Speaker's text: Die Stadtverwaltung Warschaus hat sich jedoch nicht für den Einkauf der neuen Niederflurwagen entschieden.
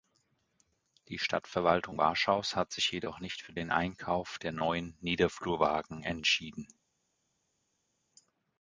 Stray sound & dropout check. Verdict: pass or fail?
pass